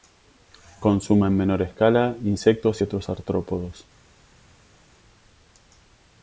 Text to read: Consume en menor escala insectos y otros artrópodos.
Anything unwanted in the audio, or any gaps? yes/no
no